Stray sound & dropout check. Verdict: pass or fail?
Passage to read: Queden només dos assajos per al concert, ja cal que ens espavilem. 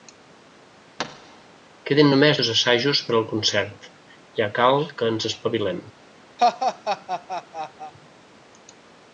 fail